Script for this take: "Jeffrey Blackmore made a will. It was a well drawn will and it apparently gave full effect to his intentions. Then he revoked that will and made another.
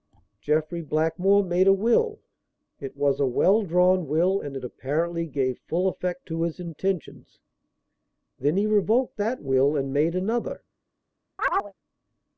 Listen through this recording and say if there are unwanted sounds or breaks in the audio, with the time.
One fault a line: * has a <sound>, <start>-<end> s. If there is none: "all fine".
* has a chirp, 11.4-11.7 s